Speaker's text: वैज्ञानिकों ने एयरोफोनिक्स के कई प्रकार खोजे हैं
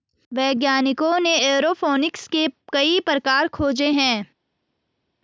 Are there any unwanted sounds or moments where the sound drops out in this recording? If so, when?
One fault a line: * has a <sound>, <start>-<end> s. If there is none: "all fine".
all fine